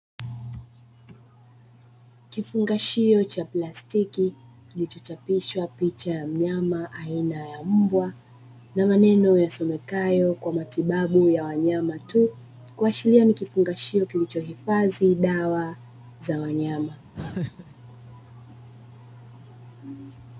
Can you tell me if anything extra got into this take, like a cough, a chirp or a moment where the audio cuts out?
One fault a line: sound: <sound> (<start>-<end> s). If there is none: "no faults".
sound: laugh (17.1-17.7 s)